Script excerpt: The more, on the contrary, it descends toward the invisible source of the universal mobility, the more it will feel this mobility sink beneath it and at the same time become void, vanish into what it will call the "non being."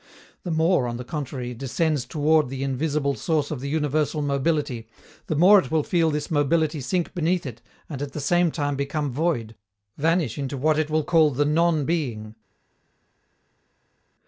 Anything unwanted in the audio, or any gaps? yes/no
no